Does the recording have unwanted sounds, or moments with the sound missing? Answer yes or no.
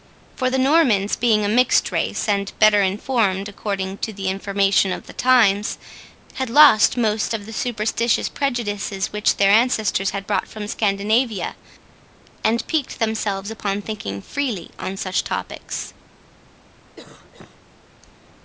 yes